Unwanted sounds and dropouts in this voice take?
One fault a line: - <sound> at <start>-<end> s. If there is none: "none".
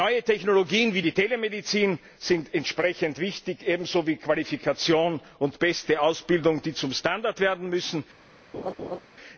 - laugh at 8.5-9.0 s